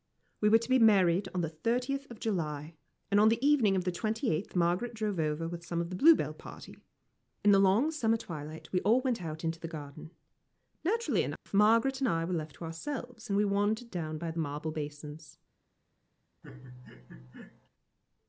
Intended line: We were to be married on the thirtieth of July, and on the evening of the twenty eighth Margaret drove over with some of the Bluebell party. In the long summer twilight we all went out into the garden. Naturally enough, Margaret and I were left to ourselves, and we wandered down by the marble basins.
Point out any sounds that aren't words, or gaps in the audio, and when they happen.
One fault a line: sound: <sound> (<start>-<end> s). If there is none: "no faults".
sound: dropout (11.4-11.5 s)
sound: laugh (16.4-17.7 s)